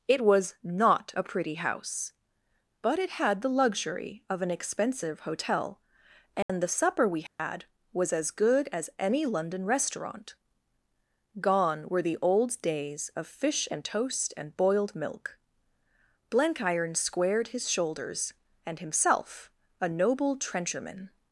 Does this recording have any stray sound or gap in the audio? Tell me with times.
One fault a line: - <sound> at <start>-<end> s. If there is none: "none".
- dropout at 6.4-6.5 s
- dropout at 7.3-7.4 s